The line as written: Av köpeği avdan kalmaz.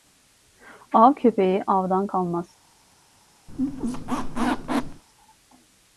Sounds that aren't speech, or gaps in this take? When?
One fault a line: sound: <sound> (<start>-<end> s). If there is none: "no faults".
sound: squeak (3.5-5.0 s)